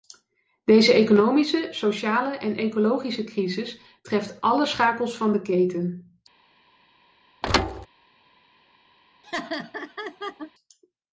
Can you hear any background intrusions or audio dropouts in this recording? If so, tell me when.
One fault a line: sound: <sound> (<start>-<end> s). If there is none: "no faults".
sound: thud (7.4-7.9 s)
sound: laugh (9.2-10.5 s)